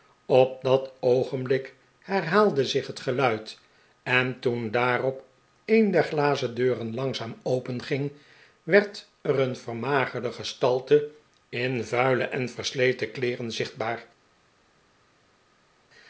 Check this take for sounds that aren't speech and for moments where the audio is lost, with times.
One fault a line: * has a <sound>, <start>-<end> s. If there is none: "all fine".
all fine